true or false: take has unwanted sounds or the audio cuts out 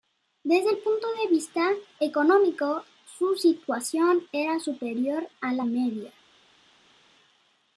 false